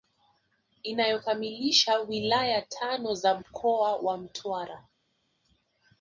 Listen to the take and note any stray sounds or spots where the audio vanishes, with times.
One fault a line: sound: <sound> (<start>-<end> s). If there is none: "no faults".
no faults